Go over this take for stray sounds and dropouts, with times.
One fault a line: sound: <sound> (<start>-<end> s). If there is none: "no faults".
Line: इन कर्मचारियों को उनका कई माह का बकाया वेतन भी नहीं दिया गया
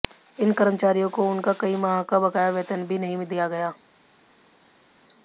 no faults